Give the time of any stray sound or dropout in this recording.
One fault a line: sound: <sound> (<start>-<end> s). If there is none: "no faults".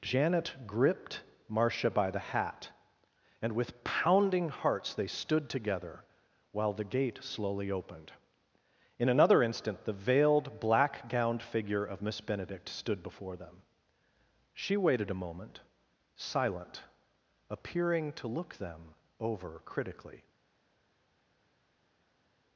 no faults